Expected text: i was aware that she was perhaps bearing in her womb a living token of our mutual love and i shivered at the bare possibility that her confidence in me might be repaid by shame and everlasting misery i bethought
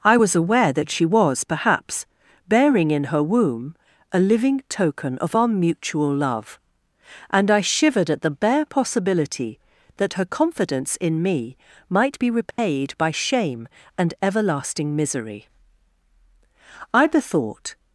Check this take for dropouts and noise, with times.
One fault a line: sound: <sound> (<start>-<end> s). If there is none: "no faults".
sound: dropout (12.5-12.6 s)